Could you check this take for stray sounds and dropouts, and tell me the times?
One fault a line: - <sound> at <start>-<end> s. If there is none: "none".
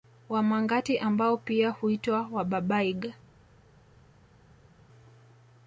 none